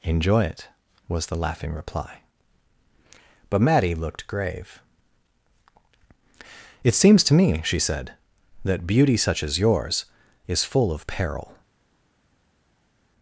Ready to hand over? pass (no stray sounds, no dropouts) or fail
pass